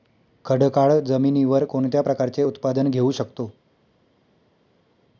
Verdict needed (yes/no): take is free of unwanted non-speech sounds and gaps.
yes